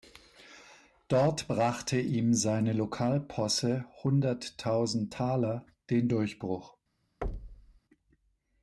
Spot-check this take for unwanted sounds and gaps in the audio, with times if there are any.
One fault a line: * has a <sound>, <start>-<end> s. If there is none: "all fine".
* has a thud, 7.2-7.8 s